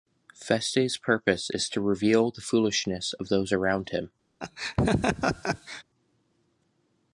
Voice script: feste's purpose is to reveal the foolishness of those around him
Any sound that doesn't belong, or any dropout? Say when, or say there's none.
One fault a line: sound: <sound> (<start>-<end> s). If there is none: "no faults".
sound: laugh (4.4-5.8 s)